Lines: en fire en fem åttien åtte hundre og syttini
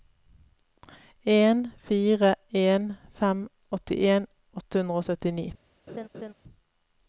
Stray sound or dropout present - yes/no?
yes